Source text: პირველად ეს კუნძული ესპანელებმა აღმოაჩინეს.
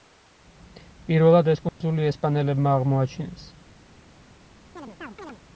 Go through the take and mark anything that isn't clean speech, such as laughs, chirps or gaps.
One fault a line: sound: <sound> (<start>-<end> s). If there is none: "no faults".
sound: dropout (1.7-1.8 s)
sound: chirp (4.8-5.4 s)